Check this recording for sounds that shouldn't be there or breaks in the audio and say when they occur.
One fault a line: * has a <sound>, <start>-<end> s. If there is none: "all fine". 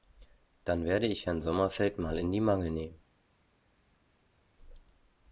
all fine